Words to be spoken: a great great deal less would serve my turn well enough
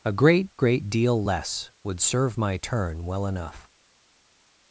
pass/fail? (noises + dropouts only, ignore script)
pass